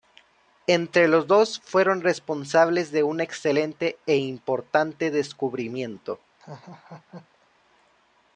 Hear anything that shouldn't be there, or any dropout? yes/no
yes